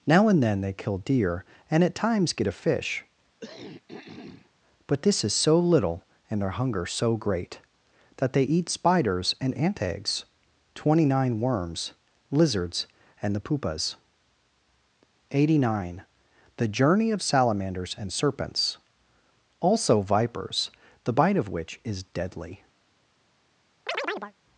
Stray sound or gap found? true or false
true